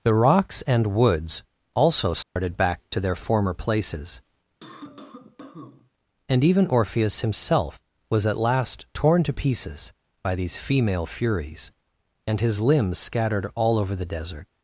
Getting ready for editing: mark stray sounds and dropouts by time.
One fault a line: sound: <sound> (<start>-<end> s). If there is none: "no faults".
sound: dropout (2.2-2.4 s)
sound: cough (4.6-5.9 s)